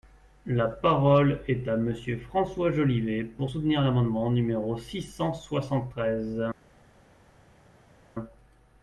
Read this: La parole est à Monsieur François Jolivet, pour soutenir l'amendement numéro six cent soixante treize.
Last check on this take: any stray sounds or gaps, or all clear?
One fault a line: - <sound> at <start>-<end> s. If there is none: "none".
none